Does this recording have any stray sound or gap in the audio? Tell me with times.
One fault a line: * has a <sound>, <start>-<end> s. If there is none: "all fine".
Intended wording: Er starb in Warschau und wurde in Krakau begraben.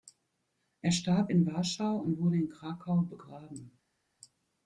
all fine